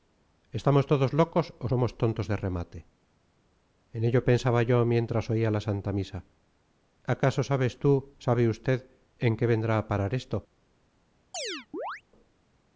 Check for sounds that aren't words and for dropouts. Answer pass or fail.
fail